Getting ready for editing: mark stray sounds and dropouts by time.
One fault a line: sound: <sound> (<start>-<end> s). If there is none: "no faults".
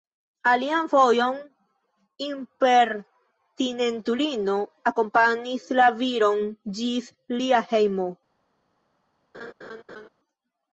sound: laugh (9.3-10.1 s)